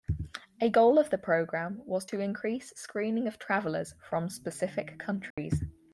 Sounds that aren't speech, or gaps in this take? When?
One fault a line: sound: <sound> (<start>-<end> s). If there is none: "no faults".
sound: dropout (5.3-5.4 s)